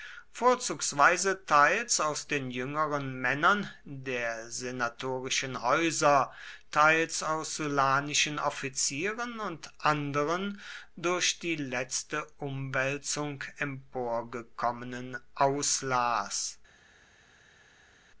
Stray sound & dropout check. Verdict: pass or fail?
pass